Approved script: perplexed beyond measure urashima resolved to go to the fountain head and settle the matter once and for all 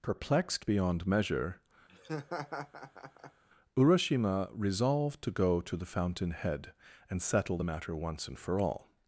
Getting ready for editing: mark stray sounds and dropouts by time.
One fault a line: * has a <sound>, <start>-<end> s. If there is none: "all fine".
* has a laugh, 1.9-3.4 s